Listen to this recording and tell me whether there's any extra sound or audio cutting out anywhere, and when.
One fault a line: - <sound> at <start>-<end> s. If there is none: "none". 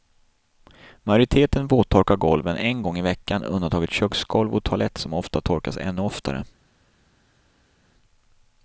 none